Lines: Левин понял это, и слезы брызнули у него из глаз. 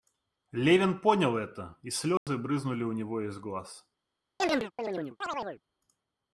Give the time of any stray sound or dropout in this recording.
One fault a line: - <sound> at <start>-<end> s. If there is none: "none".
- dropout at 2.2-2.3 s
- chirp at 4.4-5.6 s